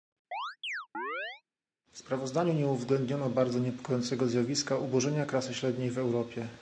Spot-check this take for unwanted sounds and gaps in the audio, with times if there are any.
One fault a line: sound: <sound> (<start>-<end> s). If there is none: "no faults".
sound: chirp (0.3-1.4 s)